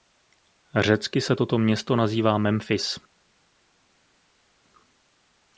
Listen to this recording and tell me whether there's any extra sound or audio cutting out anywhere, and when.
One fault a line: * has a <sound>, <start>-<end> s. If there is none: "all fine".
all fine